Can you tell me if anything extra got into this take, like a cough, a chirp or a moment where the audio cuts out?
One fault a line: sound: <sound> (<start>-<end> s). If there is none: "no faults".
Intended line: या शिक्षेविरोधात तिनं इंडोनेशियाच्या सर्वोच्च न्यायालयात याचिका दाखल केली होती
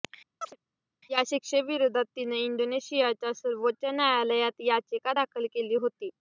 sound: chirp (0.4-0.6 s)